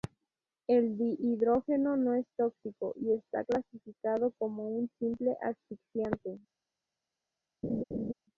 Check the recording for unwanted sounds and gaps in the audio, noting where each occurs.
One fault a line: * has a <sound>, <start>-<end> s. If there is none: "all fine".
* has a laugh, 7.6-8.1 s